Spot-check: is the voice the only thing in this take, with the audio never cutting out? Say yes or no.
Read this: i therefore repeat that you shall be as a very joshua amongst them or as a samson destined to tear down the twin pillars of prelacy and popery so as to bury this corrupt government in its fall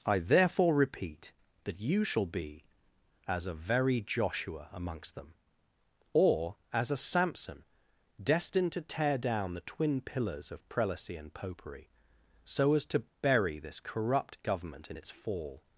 yes